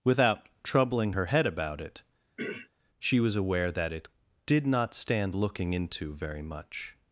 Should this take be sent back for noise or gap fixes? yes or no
yes